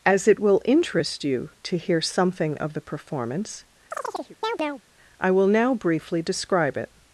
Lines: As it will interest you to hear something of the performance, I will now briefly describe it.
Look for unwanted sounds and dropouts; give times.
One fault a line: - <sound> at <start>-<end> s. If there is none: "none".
- chirp at 3.9-4.8 s